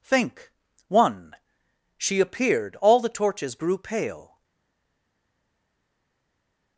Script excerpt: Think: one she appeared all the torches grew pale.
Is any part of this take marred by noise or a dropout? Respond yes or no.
no